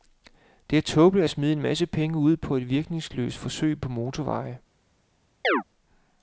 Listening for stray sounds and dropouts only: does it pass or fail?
fail